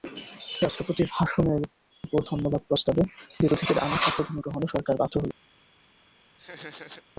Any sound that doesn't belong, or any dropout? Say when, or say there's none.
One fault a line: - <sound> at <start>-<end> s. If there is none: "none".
- laugh at 6.4-7.0 s